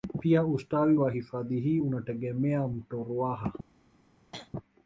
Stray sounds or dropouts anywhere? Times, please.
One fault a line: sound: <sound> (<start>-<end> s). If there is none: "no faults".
sound: throat clearing (4.3-4.5 s)